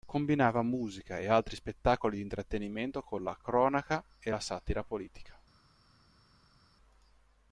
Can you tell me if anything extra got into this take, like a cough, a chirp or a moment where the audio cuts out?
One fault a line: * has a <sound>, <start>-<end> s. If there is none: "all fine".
all fine